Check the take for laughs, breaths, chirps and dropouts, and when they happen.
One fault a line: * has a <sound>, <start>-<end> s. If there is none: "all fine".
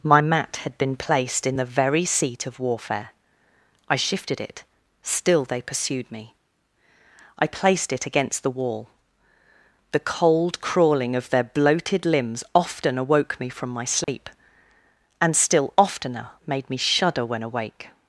* has a dropout, 14.0-14.1 s